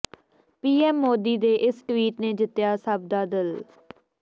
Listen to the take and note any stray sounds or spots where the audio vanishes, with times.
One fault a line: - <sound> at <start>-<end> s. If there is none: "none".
none